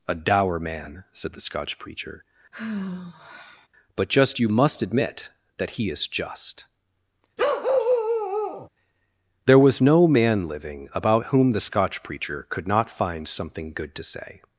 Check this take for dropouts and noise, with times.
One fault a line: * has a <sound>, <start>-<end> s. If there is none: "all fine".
* has a sigh, 2.5-3.7 s
* has a bark, 7.4-8.7 s